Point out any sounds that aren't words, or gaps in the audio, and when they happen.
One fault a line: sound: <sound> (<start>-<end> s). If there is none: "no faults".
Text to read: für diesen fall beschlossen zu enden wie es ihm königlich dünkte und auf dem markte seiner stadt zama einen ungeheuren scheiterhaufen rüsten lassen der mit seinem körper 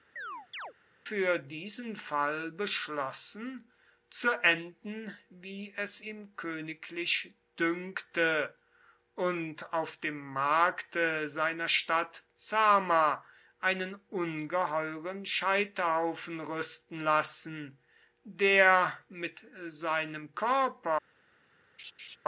sound: chirp (0.2-0.7 s)
sound: laugh (21.8-22.2 s)